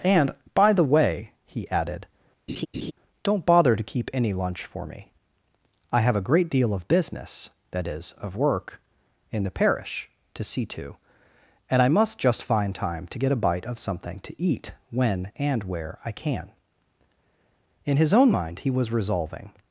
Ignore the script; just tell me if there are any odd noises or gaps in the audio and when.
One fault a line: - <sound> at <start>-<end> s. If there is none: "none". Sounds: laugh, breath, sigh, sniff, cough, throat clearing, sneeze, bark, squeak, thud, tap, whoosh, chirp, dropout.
- laugh at 2.5-2.9 s